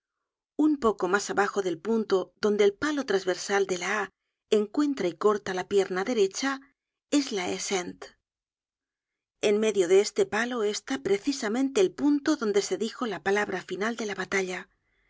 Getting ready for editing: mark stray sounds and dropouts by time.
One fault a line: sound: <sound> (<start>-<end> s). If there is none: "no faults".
no faults